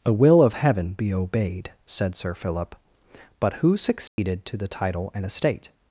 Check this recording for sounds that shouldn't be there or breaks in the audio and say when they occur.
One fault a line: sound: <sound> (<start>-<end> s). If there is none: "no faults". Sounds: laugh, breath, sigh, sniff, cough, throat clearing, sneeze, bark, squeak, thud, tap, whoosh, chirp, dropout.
sound: dropout (4.1-4.2 s)